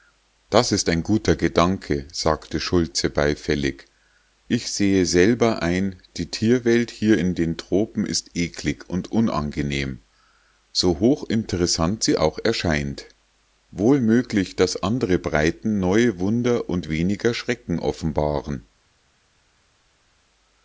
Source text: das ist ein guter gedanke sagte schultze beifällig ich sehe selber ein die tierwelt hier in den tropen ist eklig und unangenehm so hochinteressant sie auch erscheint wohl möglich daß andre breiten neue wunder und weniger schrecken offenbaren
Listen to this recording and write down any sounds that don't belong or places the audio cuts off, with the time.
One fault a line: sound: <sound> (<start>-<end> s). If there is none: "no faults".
no faults